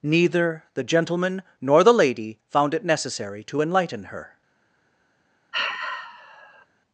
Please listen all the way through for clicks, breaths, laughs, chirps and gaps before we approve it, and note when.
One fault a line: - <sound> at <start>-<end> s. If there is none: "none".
- sigh at 5.5-6.7 s